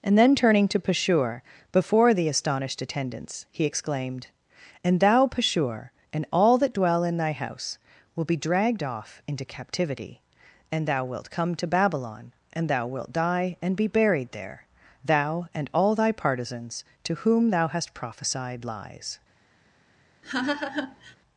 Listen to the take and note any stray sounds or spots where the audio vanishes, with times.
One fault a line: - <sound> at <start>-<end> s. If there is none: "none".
- laugh at 20.2-21.2 s